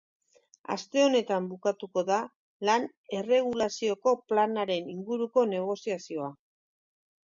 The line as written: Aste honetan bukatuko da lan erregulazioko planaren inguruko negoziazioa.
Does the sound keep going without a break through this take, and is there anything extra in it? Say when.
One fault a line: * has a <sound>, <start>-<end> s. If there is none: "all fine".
all fine